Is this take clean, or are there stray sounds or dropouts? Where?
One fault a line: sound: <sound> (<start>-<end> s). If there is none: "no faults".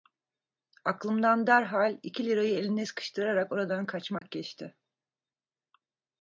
sound: dropout (4.2-4.2 s)